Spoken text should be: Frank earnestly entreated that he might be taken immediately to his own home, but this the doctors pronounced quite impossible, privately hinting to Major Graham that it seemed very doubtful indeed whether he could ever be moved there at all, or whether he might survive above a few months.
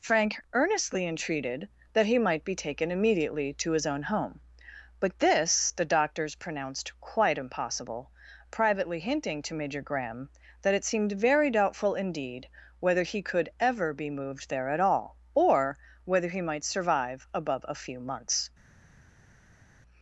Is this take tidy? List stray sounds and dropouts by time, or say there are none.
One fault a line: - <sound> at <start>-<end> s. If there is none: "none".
none